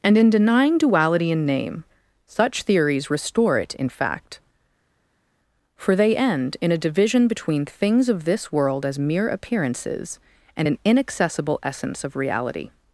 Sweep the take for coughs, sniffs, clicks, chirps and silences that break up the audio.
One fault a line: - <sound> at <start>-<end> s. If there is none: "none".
none